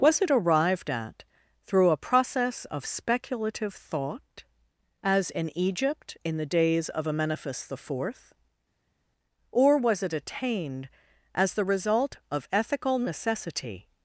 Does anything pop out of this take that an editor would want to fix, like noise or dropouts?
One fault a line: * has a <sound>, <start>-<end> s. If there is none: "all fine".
all fine